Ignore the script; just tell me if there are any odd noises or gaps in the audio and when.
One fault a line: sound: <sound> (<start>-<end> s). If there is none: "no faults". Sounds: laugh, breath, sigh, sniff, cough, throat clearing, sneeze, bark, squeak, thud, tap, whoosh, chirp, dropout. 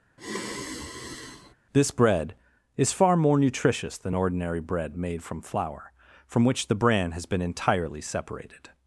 sound: sigh (0.2-1.5 s)